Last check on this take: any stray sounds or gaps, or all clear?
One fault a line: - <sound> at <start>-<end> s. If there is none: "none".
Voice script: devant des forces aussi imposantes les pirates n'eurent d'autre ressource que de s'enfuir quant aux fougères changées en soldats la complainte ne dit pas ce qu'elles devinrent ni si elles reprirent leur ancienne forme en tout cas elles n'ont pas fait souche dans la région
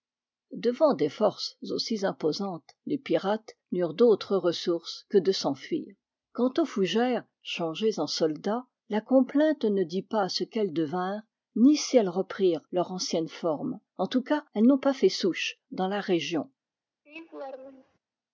- laugh at 17.1-18.0 s